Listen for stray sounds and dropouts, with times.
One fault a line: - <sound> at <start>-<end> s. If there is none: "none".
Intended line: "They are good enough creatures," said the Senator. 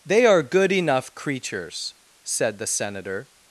none